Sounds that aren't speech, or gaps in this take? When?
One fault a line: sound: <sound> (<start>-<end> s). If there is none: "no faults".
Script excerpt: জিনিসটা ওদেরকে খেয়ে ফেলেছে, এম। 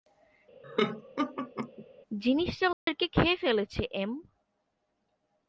sound: laugh (0.6-1.9 s)
sound: dropout (2.7-2.9 s)